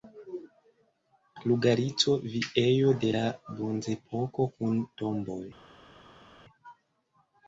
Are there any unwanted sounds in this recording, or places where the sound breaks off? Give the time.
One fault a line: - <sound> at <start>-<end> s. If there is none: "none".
none